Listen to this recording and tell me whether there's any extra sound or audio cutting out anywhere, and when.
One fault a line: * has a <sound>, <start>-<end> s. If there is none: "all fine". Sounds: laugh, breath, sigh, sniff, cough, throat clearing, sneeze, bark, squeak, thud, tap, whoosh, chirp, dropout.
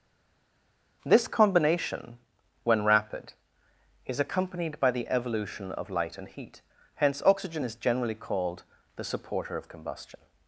all fine